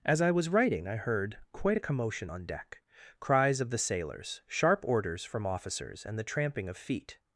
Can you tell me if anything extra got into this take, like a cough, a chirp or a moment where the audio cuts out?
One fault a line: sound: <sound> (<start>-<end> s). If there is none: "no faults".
no faults